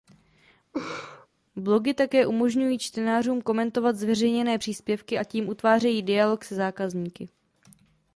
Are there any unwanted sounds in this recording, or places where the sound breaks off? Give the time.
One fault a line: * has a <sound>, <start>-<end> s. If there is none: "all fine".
* has a laugh, 0.7-1.3 s